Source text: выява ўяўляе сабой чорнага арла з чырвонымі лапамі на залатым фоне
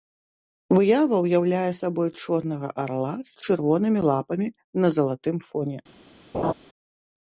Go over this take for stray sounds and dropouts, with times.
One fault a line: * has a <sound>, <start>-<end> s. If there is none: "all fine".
* has a laugh, 6.3-6.5 s